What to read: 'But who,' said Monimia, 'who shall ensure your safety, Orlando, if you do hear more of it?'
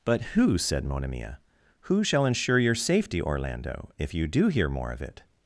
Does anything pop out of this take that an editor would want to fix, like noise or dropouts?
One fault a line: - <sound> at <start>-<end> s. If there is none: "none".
none